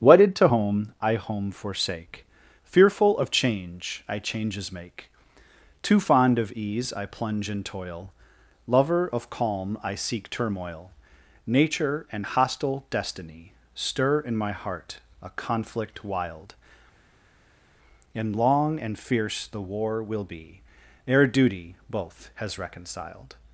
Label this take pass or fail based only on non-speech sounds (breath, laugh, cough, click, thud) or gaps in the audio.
pass